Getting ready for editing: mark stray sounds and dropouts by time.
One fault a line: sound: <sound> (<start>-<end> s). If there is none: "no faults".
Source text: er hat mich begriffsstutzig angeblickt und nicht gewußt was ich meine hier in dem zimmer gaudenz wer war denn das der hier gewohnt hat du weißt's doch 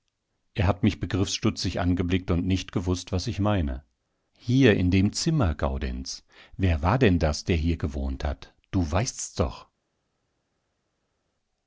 no faults